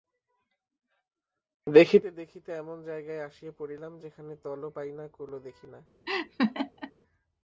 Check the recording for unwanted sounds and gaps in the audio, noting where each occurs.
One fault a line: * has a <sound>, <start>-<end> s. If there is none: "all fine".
* has a laugh, 6.1-6.9 s